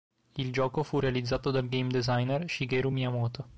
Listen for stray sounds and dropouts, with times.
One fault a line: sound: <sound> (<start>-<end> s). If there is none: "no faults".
no faults